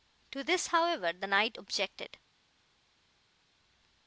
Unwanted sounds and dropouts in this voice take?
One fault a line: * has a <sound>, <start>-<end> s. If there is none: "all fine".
all fine